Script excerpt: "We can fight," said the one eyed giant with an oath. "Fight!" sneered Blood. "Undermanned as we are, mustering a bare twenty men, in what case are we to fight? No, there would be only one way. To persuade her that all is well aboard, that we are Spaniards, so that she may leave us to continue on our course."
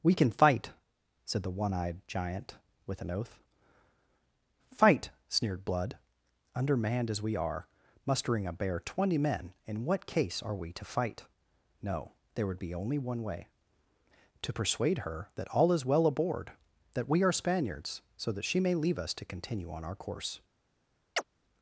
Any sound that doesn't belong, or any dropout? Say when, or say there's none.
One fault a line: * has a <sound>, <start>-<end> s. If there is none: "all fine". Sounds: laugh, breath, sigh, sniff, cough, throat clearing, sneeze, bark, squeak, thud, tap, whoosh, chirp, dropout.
* has a chirp, 21.2-21.2 s